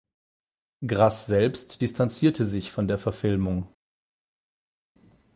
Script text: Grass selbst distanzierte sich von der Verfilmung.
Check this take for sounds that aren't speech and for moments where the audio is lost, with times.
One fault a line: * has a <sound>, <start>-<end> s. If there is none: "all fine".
all fine